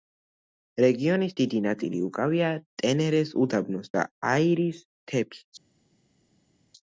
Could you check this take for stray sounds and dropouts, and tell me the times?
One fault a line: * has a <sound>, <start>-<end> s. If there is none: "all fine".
all fine